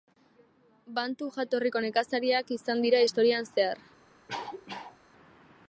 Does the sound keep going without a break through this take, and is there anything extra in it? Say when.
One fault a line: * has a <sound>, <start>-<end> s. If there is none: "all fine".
* has a cough, 4.3-5.0 s